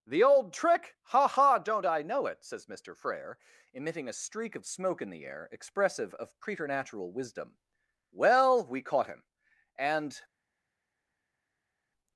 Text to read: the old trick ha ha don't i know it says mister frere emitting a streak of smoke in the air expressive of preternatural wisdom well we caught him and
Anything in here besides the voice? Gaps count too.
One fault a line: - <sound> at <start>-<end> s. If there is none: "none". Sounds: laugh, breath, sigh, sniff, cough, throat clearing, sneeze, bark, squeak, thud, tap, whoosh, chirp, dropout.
none